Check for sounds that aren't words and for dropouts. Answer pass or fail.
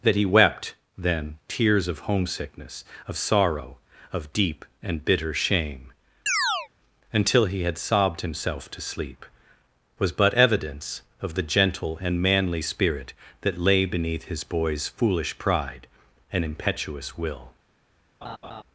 fail